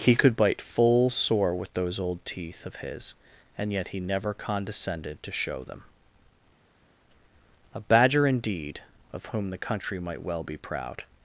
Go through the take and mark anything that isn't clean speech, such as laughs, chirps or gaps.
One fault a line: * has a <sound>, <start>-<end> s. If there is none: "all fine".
all fine